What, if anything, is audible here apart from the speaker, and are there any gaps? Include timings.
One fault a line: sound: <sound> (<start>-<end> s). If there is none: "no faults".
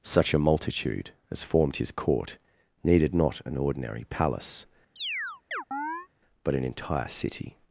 sound: chirp (5.0-6.1 s)